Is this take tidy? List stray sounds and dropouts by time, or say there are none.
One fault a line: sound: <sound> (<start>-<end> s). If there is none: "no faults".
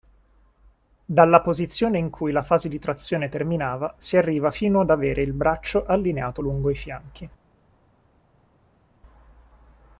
no faults